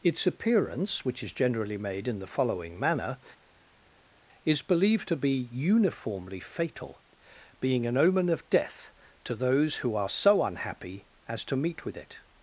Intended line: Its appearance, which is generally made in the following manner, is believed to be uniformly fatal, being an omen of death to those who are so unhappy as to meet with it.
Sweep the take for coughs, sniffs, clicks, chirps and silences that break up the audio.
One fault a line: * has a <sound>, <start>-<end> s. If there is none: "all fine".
all fine